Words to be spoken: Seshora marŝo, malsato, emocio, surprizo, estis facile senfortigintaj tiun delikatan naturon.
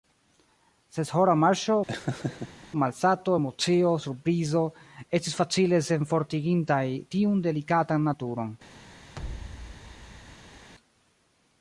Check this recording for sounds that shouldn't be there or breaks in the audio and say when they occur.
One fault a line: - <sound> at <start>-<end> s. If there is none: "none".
- laugh at 1.9-2.7 s
- thud at 9.1-10.7 s